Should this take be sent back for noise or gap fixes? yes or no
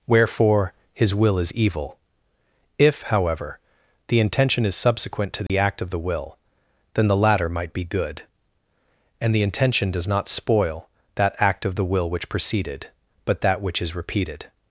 yes